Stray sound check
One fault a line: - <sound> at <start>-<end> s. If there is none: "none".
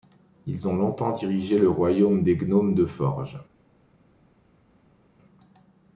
none